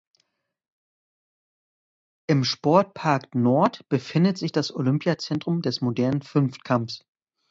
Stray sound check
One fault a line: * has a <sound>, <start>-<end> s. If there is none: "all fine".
all fine